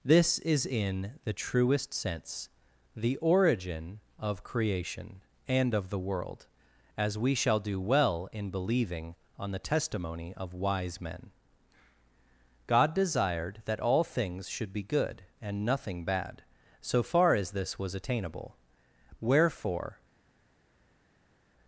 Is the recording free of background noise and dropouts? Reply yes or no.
yes